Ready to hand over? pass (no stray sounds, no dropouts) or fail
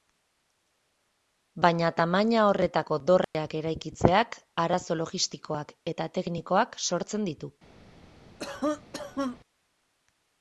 fail